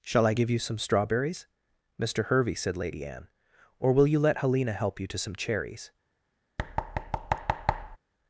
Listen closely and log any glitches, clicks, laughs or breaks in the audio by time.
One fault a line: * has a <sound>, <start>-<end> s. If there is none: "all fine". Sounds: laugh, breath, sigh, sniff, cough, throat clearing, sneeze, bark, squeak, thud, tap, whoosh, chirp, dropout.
* has a thud, 6.6-8.0 s